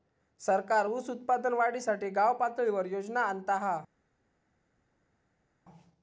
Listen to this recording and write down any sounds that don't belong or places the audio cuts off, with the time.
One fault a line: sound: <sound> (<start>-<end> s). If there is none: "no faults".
no faults